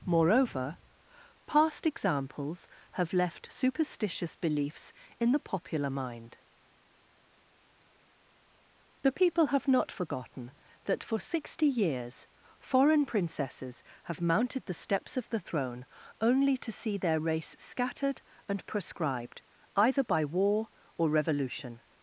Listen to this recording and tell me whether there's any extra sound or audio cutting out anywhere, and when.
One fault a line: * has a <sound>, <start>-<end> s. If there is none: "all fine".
all fine